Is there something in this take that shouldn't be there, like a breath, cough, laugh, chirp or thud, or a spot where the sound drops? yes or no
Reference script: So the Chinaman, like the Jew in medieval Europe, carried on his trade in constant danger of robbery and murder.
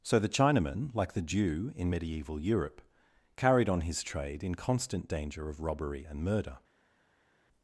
no